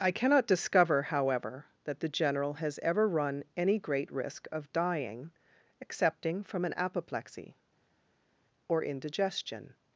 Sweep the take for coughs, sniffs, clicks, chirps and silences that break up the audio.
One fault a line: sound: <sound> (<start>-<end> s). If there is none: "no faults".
no faults